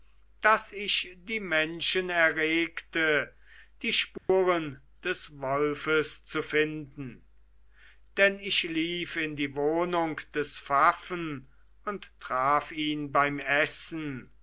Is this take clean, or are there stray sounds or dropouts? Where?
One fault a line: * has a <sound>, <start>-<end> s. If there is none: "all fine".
* has a dropout, 4.2-4.3 s